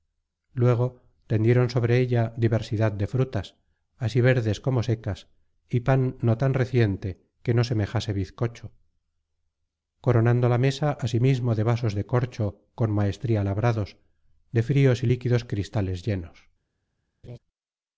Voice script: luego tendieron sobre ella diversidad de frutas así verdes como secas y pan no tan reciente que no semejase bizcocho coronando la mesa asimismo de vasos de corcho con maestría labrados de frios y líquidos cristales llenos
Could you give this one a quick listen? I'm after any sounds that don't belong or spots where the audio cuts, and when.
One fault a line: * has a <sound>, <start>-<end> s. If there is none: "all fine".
* has a laugh, 17.2-17.4 s